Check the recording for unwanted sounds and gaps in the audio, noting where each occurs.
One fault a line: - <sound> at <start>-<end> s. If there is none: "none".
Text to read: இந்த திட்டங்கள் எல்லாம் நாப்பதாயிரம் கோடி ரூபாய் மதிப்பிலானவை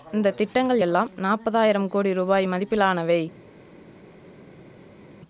none